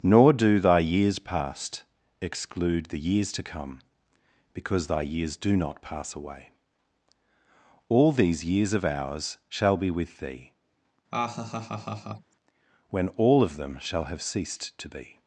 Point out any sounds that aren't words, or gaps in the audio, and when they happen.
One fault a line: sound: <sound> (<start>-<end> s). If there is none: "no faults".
sound: laugh (11.1-12.3 s)